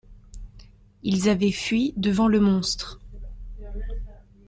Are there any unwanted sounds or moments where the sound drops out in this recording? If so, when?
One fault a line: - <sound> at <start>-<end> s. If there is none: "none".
none